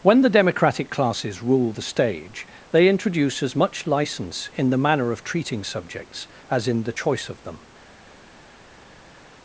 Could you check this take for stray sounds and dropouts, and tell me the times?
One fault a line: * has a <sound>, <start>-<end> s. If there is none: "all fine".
all fine